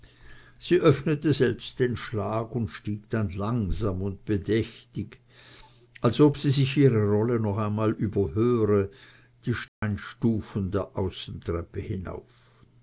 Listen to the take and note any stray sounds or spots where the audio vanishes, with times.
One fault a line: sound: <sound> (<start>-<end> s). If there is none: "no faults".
sound: dropout (9.7-9.8 s)